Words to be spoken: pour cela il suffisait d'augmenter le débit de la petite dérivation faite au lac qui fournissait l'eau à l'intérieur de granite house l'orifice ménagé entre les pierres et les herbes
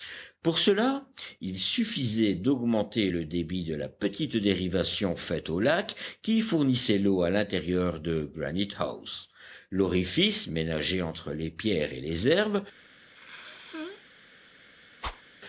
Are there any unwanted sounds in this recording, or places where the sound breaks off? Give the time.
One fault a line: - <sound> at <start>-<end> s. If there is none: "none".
- sneeze at 13.1-14.1 s
- whoosh at 15.0-15.2 s